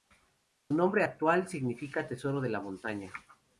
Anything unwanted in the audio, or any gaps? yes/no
no